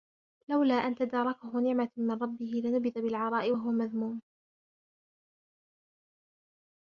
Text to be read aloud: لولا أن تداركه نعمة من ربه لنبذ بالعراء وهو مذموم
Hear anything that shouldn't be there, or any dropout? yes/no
no